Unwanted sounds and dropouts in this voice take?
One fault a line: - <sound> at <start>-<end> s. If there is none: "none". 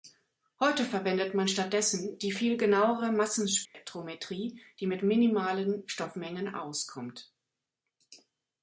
- dropout at 3.7-3.7 s